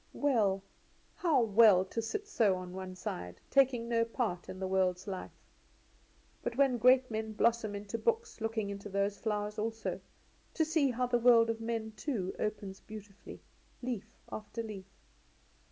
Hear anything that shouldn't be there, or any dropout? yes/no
no